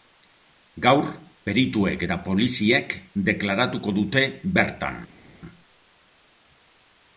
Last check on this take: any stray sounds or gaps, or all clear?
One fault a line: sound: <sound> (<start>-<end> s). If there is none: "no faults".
no faults